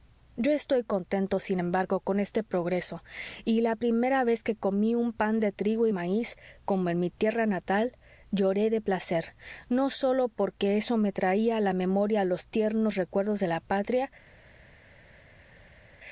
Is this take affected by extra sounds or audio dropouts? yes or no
no